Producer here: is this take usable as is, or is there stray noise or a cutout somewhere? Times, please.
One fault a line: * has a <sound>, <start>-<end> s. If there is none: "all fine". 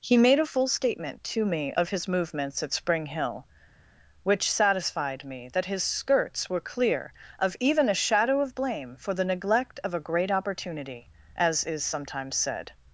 all fine